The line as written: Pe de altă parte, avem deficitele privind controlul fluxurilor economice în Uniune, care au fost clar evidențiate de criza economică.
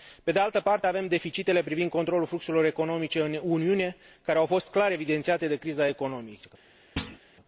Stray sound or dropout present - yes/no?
yes